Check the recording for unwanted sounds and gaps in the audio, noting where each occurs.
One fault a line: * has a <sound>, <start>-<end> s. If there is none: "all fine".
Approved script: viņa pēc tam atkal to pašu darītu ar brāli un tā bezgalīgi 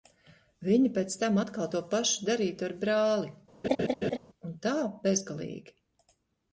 * has a laugh, 3.6-4.2 s